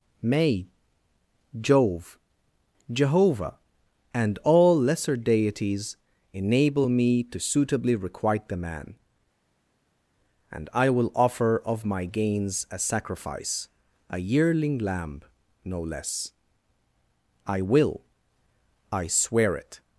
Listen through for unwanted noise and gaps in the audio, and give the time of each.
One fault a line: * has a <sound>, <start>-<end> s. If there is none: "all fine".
all fine